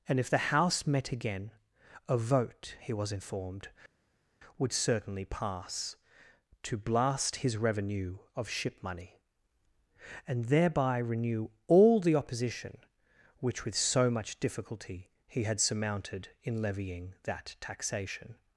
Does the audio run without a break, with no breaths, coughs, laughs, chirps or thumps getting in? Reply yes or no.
yes